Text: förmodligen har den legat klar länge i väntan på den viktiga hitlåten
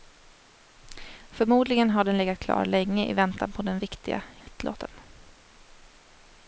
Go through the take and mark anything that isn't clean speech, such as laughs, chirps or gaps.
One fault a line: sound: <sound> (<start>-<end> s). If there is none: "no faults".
sound: dropout (4.4-4.5 s)